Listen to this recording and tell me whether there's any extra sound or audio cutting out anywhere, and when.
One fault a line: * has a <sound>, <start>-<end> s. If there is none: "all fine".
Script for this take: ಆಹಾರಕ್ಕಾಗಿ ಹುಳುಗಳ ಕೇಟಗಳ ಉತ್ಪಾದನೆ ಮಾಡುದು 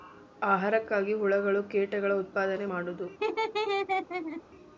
* has a laugh, 3.2-4.4 s